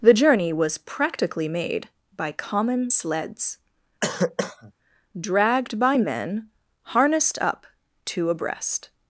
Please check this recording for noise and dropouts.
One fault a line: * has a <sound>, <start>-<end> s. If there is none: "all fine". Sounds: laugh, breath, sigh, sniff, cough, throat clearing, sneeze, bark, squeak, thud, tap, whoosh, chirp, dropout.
* has a cough, 4.0-4.7 s